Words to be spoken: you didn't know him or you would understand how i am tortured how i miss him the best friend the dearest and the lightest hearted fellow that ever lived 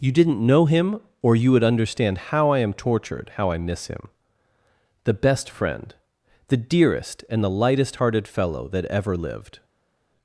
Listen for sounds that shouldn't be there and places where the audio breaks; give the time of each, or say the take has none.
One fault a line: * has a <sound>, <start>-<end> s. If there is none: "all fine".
all fine